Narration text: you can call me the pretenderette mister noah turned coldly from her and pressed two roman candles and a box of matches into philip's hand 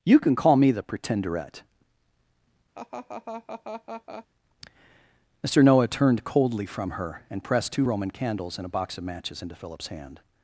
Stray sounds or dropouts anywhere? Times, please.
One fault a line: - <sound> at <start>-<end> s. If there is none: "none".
- laugh at 2.7-4.3 s